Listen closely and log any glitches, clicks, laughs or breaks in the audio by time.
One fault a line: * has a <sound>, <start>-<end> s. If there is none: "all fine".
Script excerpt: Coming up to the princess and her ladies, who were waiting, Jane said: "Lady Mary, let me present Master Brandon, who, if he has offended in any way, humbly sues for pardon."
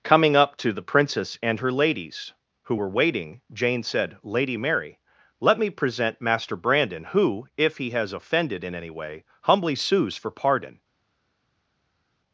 all fine